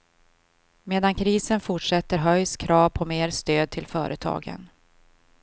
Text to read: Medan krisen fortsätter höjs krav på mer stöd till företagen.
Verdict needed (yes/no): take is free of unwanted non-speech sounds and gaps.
yes